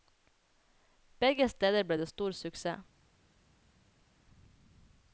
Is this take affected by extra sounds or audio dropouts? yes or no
no